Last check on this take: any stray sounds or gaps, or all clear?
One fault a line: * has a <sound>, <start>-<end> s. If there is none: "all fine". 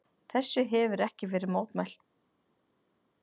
all fine